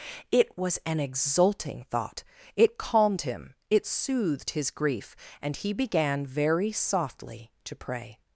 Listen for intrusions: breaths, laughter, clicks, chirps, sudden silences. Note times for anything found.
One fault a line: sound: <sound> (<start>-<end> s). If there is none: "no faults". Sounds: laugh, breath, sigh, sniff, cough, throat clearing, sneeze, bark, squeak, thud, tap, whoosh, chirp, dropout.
no faults